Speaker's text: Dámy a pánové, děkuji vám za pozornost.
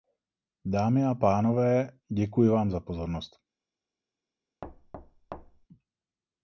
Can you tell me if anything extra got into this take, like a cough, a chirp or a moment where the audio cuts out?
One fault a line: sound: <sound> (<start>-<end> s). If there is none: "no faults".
sound: thud (4.6-5.7 s)